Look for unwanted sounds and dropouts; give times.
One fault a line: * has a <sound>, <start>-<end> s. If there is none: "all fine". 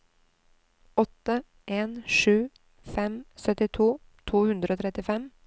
all fine